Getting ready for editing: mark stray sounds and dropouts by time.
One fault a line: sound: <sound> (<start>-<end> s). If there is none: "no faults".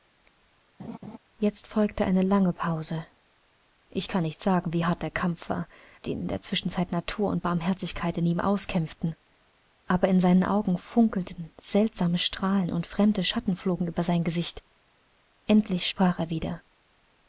sound: laugh (0.8-1.2 s)